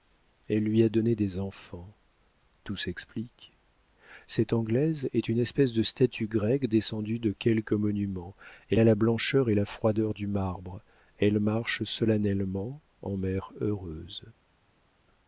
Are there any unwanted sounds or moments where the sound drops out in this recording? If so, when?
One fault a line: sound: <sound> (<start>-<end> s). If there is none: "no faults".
no faults